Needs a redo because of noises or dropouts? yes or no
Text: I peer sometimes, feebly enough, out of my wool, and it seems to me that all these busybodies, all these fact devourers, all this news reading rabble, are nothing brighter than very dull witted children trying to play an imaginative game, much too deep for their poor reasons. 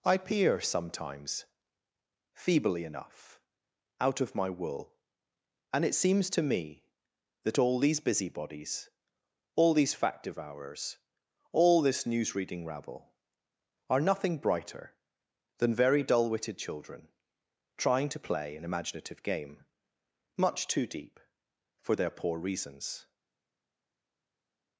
no